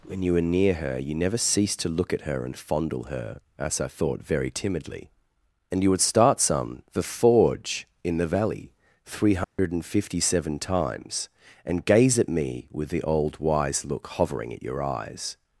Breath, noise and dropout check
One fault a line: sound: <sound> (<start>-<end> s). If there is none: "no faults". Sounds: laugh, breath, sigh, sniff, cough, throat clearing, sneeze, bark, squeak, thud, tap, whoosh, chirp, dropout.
sound: dropout (9.4-9.6 s)